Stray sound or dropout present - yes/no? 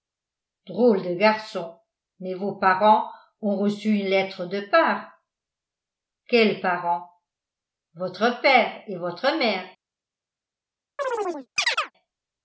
yes